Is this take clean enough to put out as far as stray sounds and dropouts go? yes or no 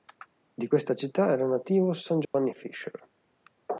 no